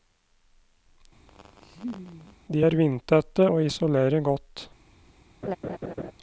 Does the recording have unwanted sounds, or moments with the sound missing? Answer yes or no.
yes